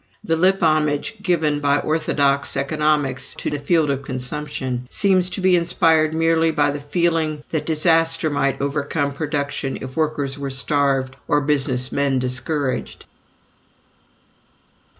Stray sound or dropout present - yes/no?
no